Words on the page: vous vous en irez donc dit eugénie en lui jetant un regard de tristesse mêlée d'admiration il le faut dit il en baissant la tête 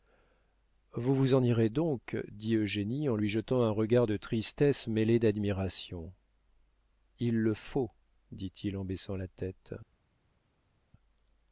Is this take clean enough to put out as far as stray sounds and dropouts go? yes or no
yes